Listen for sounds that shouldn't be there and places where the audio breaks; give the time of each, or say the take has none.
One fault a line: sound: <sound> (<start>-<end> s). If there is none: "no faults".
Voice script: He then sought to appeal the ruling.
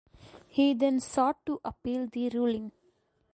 no faults